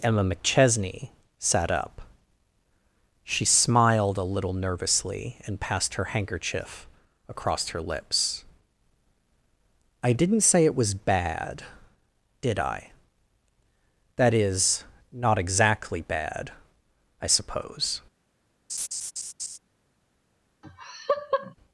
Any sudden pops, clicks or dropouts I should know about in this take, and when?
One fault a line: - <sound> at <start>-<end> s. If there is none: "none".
- laugh at 18.7-19.6 s
- laugh at 20.6-21.5 s